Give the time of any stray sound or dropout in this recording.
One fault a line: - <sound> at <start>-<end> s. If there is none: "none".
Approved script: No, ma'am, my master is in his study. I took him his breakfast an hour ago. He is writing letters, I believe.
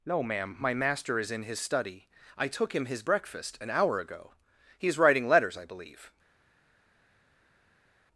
none